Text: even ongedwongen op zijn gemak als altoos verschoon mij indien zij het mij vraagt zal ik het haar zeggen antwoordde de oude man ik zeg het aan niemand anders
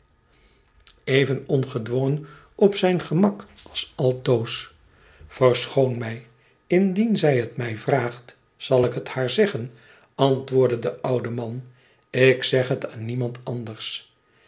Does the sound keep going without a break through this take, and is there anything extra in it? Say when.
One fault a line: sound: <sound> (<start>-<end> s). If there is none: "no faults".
no faults